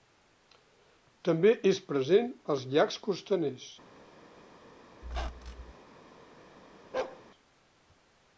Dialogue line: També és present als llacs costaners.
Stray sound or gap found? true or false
true